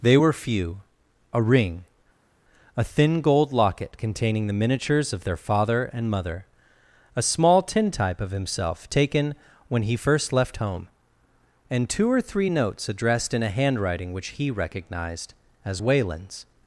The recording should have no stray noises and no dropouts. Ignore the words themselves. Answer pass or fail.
pass